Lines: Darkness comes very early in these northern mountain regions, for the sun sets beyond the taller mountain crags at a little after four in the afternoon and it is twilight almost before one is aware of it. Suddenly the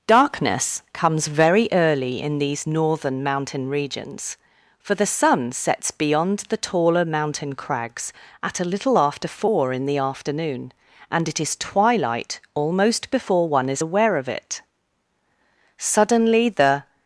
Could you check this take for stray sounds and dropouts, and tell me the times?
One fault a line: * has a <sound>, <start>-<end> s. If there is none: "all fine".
all fine